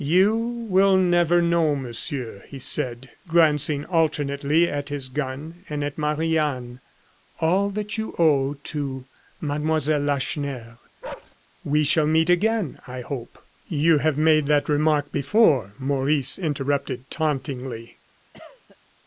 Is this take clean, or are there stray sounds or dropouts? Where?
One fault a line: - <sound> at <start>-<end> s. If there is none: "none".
- bark at 11.0-11.4 s
- cough at 18.3-18.8 s